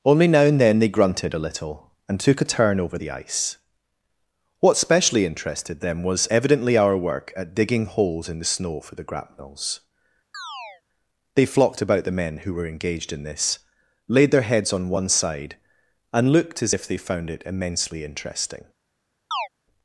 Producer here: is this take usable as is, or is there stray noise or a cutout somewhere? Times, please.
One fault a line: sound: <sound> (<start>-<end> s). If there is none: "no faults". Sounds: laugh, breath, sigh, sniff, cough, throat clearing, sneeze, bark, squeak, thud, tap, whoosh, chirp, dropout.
sound: chirp (10.3-10.8 s)
sound: chirp (19.3-19.5 s)